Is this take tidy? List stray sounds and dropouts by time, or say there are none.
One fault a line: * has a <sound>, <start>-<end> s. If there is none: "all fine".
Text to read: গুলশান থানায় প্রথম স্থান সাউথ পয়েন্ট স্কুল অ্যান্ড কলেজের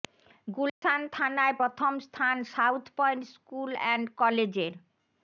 * has a dropout, 0.7-0.8 s